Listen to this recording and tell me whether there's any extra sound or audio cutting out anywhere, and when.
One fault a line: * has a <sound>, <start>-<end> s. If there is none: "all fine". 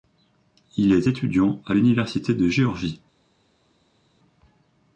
all fine